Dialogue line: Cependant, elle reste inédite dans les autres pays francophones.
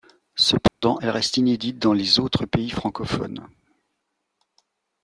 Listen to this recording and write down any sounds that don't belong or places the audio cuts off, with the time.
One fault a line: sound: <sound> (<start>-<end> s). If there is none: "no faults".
sound: dropout (0.7-0.8 s)